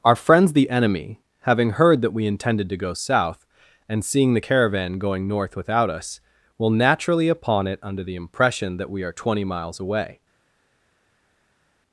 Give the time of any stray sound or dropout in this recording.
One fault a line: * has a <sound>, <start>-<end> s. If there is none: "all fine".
all fine